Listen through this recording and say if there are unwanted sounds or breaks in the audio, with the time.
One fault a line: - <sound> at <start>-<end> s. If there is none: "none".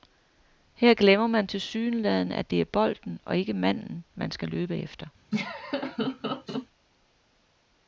- laugh at 5.3-6.7 s